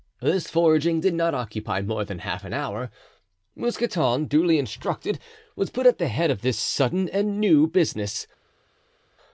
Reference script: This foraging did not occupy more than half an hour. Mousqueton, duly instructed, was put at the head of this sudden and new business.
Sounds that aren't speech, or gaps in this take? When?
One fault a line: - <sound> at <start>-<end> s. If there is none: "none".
none